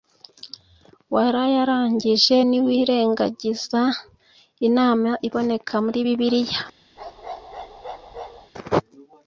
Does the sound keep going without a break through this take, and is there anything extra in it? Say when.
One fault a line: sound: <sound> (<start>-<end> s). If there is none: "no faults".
sound: bark (7.0-8.5 s)